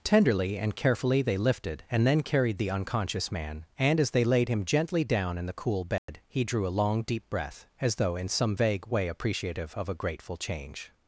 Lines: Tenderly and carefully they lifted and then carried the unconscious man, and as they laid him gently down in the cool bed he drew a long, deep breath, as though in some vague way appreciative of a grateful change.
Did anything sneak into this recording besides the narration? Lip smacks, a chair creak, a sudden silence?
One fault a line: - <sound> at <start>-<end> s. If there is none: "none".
- dropout at 6.0-6.1 s